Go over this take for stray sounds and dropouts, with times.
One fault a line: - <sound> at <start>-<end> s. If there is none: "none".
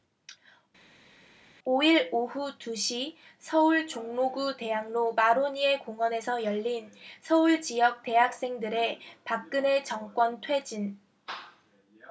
none